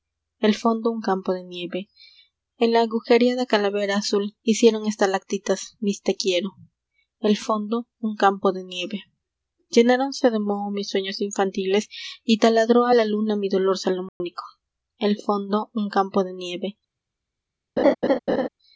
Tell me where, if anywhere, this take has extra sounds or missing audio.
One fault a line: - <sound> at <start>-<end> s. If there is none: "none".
- dropout at 14.1-14.2 s
- laugh at 17.8-18.5 s